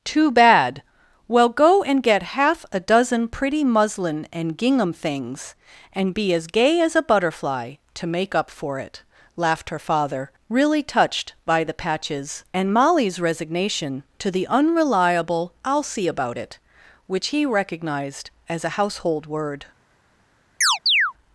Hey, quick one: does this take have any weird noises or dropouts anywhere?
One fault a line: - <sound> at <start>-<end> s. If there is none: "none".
- chirp at 20.6-21.1 s